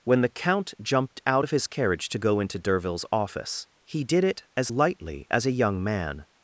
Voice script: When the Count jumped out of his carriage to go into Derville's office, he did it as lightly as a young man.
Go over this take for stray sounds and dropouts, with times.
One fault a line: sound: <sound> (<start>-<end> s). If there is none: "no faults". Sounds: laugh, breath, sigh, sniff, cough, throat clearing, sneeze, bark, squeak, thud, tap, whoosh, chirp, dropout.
no faults